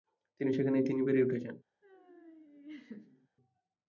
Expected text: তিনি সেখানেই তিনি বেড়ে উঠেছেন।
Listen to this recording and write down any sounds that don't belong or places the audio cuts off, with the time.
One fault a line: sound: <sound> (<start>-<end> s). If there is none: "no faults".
sound: laugh (1.8-3.3 s)